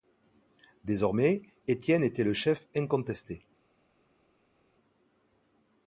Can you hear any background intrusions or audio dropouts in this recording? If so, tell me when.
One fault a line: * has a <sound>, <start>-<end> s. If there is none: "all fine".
all fine